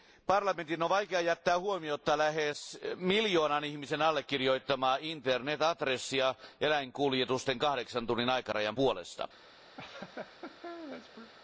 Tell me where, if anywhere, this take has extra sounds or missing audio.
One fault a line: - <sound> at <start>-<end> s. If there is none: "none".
- laugh at 9.8-11.3 s